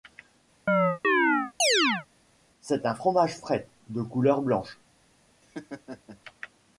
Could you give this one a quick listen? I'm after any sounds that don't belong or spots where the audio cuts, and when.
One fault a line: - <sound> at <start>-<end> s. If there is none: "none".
- chirp at 0.7-2.1 s
- laugh at 5.4-6.2 s